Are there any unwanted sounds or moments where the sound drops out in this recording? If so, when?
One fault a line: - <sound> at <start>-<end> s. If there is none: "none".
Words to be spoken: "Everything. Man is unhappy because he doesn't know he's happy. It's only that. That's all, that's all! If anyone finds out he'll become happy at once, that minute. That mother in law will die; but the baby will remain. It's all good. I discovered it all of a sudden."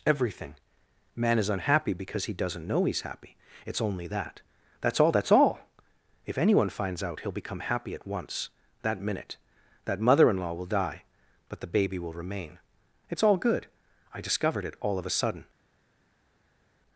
none